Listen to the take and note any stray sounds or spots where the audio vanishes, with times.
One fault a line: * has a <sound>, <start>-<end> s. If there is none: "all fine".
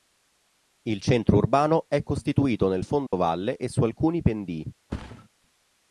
* has a dropout, 3.1-3.1 s
* has a thud, 4.9-5.3 s